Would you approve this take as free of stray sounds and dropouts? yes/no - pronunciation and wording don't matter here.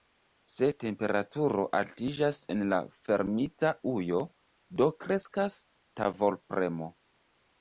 yes